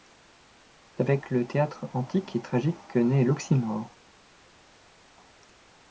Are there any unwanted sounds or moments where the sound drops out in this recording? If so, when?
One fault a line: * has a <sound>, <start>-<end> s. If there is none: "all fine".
all fine